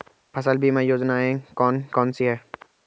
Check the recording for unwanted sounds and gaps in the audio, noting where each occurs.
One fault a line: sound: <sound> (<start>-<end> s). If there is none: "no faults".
no faults